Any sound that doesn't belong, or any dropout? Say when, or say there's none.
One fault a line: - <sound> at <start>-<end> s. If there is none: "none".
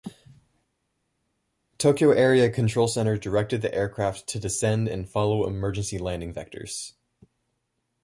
none